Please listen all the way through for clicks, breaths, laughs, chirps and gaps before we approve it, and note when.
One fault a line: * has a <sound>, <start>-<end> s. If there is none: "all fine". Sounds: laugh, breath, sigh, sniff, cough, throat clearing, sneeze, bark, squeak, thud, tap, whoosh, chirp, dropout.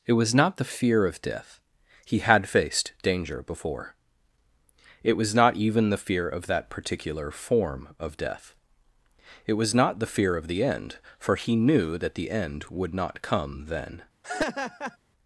* has a laugh, 14.2-15.0 s